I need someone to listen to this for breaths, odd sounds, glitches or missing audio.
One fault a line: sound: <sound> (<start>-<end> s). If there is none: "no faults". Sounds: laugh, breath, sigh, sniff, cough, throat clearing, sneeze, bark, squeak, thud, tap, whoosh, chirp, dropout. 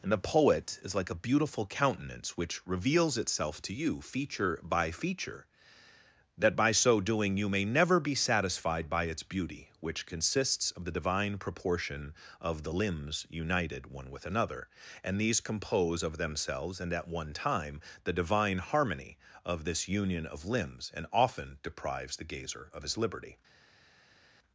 no faults